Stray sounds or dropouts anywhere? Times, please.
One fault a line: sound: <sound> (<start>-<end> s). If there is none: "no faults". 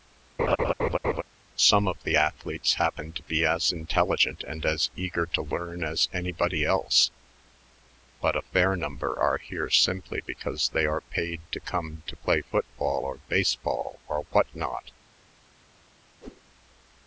sound: laugh (0.4-1.2 s)
sound: whoosh (16.2-16.4 s)